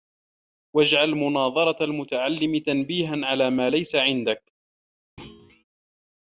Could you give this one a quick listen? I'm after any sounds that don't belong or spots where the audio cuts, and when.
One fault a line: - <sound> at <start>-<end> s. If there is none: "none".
- thud at 5.2-5.6 s